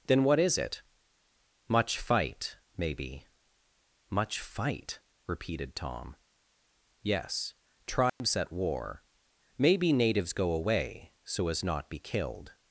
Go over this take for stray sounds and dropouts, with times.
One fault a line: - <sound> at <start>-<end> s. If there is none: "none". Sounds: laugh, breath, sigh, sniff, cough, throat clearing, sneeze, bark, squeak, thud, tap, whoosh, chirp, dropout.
- dropout at 8.1-8.2 s